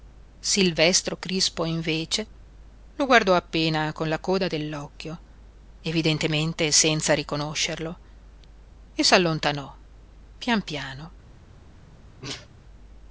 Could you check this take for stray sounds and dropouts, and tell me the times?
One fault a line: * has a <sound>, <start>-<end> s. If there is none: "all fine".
* has a sneeze, 12.2-12.5 s